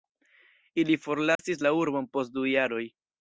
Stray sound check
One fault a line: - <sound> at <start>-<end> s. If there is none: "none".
- dropout at 1.4-1.4 s